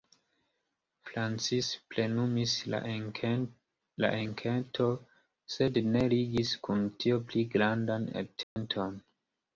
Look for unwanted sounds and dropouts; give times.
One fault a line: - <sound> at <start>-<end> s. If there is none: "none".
- dropout at 8.4-8.6 s